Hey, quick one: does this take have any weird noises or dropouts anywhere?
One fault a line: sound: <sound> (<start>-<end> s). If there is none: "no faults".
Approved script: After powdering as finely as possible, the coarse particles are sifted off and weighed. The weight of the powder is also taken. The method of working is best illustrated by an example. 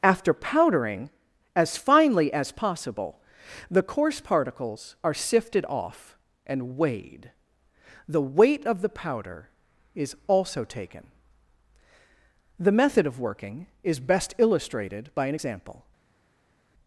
no faults